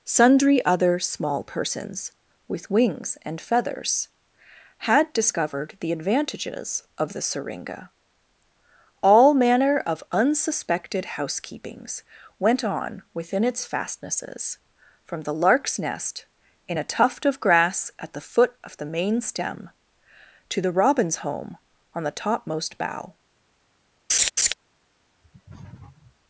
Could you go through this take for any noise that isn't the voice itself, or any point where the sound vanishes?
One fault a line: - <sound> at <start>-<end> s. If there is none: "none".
- laugh at 24.1-24.5 s
- sniff at 25.2-26.2 s